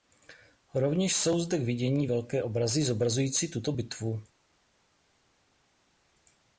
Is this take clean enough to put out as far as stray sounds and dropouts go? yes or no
yes